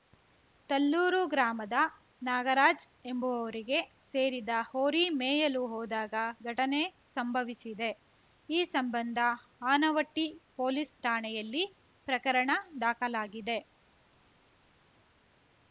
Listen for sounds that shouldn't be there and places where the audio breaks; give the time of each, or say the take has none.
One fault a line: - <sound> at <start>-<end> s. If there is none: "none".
none